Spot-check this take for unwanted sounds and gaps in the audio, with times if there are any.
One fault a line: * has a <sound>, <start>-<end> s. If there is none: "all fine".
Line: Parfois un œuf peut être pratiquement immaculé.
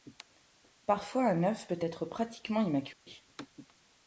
* has a dropout, 2.9-3.1 s